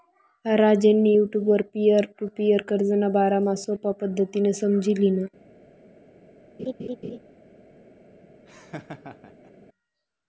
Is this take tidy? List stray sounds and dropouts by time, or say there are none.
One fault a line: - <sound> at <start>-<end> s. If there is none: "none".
- laugh at 6.6-7.2 s
- laugh at 8.5-9.5 s